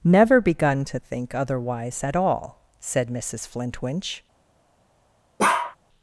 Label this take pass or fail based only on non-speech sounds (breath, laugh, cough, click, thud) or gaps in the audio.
fail